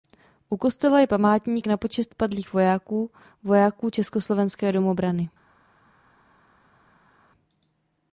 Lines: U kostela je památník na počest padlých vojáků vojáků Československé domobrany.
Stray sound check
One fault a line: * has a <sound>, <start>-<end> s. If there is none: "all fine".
all fine